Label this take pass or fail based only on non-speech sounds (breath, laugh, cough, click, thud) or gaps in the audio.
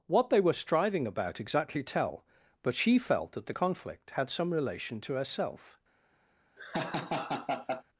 fail